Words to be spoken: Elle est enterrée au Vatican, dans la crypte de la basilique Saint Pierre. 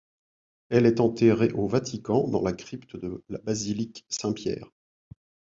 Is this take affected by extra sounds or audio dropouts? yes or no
no